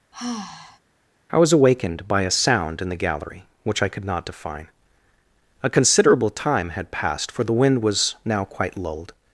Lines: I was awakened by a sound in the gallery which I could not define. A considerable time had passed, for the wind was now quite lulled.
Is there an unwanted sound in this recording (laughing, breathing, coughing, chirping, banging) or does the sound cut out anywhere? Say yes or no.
yes